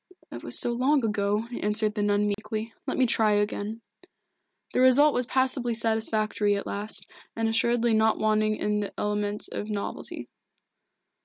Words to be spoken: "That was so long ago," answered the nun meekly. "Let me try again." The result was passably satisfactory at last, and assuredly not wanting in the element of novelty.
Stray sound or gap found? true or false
true